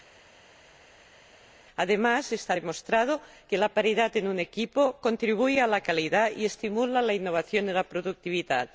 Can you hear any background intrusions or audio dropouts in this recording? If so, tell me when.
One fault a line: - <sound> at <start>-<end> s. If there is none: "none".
none